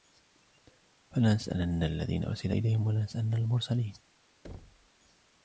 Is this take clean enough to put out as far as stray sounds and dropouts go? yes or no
no